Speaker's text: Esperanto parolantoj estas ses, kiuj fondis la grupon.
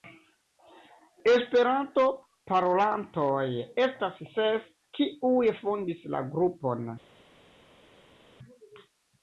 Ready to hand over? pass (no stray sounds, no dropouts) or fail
pass